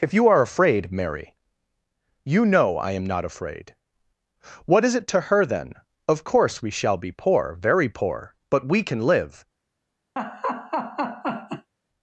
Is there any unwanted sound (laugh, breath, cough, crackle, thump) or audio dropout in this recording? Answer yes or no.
yes